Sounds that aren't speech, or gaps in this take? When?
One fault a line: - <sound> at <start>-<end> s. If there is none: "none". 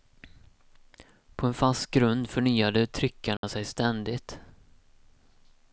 - dropout at 3.4-3.4 s